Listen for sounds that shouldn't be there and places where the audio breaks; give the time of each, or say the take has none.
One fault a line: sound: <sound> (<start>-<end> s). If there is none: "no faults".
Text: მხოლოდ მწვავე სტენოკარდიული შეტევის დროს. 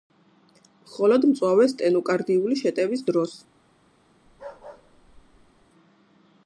sound: bark (4.3-5.7 s)